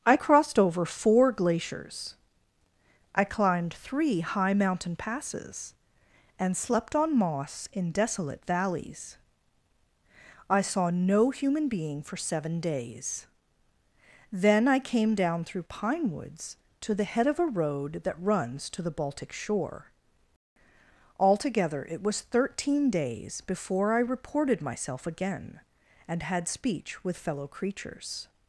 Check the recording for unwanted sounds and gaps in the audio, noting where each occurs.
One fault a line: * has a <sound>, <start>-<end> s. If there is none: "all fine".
all fine